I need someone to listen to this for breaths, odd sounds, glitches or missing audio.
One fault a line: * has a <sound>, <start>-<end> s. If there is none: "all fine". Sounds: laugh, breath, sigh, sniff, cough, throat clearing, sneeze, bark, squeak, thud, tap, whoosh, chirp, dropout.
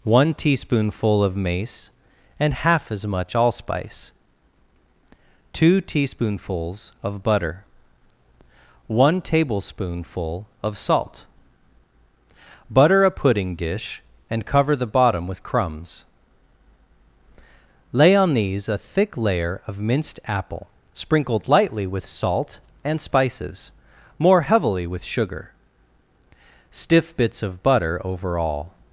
all fine